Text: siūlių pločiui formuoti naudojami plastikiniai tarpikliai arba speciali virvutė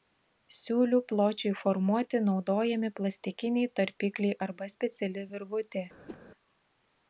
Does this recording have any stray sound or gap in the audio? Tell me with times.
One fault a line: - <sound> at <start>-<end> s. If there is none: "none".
- whoosh at 6.1-6.2 s